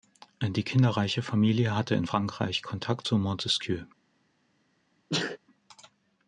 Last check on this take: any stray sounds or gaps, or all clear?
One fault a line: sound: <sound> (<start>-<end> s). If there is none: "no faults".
sound: sneeze (5.1-5.4 s)